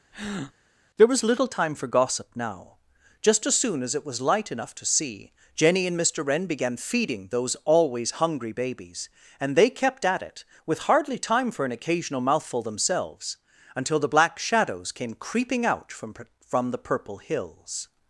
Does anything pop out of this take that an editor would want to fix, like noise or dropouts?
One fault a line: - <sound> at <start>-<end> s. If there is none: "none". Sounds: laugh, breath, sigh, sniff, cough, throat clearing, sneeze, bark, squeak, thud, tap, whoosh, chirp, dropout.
- breath at 0.1-0.5 s